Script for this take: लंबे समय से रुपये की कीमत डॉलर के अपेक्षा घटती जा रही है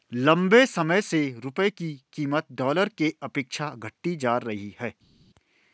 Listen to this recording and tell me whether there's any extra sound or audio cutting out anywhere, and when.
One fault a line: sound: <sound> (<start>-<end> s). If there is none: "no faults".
no faults